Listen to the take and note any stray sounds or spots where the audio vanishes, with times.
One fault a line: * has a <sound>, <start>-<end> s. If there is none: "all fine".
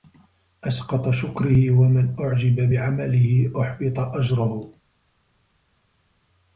all fine